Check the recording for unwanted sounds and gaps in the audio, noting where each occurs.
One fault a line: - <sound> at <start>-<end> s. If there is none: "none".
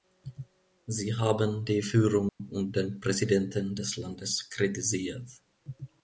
- dropout at 2.3-2.4 s